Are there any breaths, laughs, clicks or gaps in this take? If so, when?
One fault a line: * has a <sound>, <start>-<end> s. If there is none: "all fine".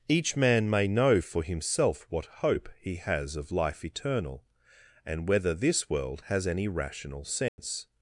* has a dropout, 7.5-7.6 s